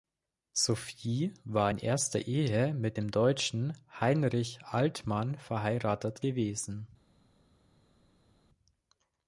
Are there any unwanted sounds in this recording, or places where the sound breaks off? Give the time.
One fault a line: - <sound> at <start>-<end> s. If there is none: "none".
none